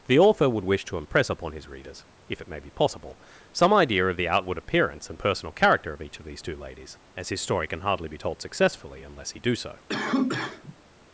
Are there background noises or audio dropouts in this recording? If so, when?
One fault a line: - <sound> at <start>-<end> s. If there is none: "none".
- cough at 9.9-10.8 s